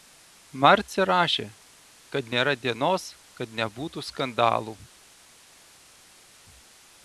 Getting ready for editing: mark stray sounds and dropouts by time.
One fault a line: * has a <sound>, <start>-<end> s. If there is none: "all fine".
all fine